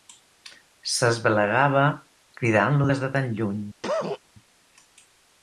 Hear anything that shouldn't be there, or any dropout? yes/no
yes